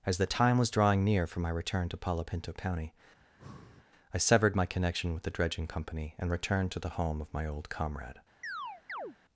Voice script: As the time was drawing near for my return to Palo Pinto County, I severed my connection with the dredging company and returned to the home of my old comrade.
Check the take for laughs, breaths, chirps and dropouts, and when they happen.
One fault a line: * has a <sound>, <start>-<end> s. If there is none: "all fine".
* has a breath, 3.2-3.9 s
* has a chirp, 8.4-9.2 s